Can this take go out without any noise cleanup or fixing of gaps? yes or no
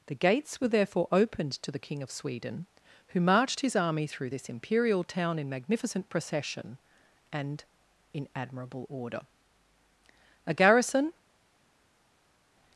yes